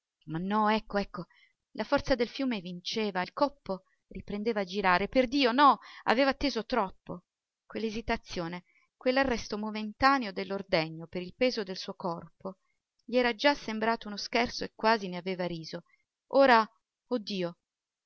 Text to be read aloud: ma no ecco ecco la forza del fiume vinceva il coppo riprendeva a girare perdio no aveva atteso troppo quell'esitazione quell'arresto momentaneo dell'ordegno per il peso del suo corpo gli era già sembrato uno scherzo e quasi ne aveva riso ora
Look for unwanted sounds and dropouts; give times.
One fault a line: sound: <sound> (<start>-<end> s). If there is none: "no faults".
no faults